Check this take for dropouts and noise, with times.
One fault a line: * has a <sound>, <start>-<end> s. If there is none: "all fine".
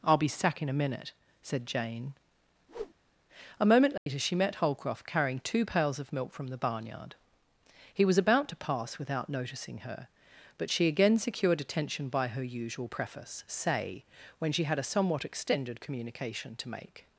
* has a whoosh, 2.7-2.9 s
* has a dropout, 4.0-4.1 s